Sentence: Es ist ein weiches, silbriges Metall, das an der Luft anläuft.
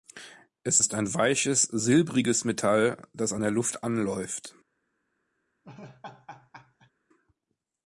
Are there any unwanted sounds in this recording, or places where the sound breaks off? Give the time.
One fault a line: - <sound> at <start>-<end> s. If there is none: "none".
- laugh at 5.6-6.9 s